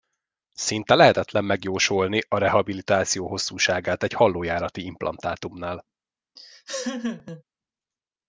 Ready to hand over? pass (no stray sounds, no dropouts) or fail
fail